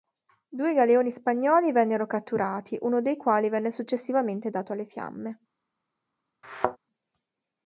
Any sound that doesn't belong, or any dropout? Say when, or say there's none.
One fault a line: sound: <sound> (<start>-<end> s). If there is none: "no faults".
sound: thud (6.4-6.8 s)